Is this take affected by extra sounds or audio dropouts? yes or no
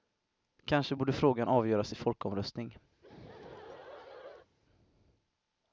yes